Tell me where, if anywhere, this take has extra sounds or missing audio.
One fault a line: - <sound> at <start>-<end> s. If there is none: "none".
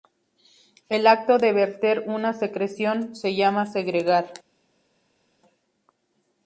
none